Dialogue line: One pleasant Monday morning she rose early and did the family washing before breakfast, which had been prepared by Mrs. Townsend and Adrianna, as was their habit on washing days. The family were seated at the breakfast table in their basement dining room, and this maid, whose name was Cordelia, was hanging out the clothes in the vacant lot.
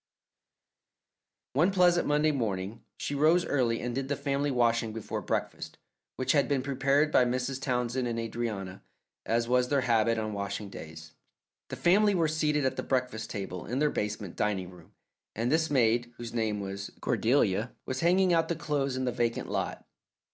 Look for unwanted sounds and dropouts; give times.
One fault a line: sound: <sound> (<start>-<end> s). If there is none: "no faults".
no faults